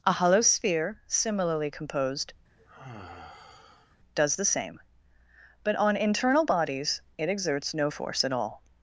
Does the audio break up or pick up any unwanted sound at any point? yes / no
yes